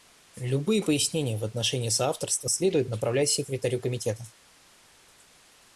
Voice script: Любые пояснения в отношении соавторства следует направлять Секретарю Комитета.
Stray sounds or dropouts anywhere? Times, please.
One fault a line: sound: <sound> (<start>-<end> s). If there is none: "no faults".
no faults